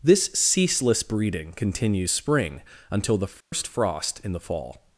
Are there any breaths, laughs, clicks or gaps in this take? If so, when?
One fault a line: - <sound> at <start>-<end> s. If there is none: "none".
- dropout at 3.4-3.5 s